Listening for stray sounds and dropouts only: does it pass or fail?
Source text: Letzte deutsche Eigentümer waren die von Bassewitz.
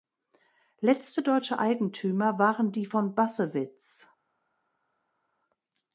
pass